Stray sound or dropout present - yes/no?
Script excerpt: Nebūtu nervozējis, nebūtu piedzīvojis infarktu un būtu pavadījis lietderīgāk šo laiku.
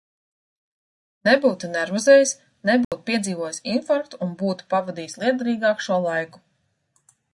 yes